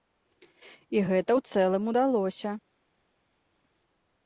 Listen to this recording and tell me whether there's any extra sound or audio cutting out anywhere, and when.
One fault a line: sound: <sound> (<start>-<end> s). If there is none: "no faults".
no faults